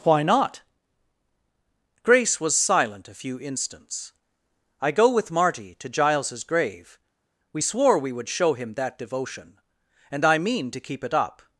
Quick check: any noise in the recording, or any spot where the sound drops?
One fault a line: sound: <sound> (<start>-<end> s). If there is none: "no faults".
no faults